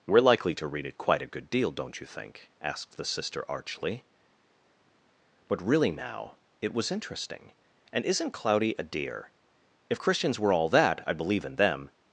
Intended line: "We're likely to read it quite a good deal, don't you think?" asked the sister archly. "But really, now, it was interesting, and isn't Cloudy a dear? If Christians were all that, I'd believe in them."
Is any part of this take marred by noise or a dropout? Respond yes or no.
no